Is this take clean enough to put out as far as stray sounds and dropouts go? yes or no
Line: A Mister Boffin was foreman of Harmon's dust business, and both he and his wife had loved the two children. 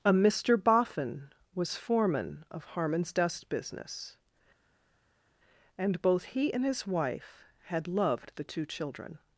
yes